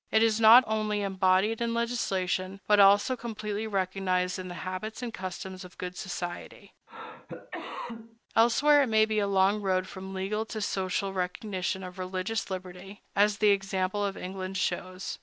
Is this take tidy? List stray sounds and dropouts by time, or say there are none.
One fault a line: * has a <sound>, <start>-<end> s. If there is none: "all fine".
* has a cough, 6.9-8.2 s